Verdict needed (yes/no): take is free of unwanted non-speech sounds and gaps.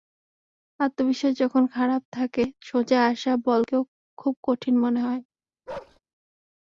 no